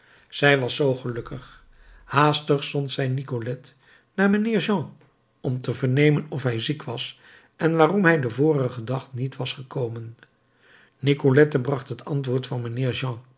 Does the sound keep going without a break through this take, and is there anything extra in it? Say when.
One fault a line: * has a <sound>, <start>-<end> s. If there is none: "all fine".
all fine